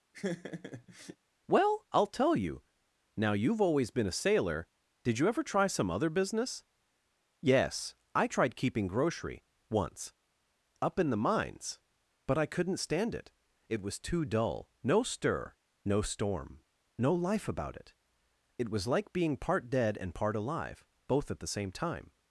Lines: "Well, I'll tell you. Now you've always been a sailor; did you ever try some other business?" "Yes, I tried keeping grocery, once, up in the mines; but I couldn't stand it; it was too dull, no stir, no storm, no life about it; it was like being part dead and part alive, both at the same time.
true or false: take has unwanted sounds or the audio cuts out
true